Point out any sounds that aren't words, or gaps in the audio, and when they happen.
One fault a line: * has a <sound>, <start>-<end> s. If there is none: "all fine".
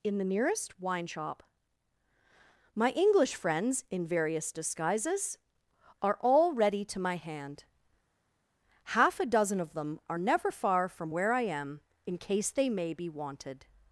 all fine